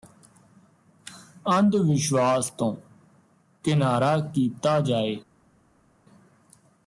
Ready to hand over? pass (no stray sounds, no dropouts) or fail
pass